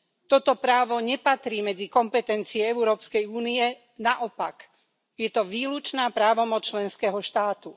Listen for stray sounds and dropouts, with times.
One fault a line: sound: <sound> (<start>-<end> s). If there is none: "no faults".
no faults